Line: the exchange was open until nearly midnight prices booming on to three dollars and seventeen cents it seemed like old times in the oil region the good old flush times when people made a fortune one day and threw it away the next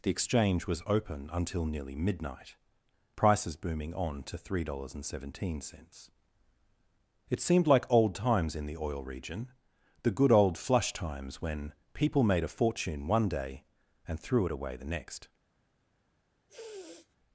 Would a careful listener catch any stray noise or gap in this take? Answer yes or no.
yes